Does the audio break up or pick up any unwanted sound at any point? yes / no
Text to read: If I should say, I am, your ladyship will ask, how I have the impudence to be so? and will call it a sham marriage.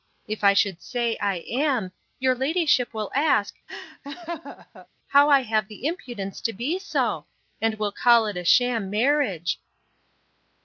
yes